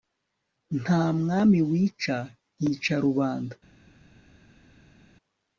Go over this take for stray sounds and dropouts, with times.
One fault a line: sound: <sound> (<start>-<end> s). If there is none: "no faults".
no faults